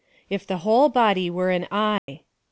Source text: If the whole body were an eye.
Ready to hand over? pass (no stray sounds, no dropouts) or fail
fail